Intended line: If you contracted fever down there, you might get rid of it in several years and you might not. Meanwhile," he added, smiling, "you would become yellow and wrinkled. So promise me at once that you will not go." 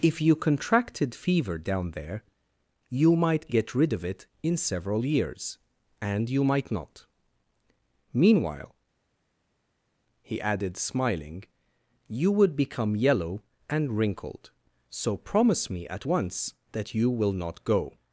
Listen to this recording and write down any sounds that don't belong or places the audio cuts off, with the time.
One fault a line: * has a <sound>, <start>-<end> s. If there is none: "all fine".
all fine